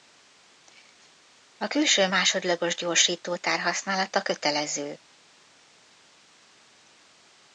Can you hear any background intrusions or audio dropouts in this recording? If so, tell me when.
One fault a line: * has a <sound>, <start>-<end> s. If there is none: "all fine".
all fine